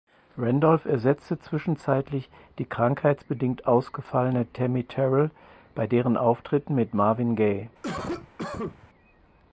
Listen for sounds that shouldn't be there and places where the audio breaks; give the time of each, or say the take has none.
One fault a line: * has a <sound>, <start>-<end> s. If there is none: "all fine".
* has a cough, 7.8-8.9 s